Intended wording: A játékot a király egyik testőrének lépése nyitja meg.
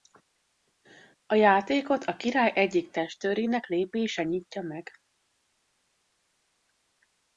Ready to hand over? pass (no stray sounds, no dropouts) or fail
pass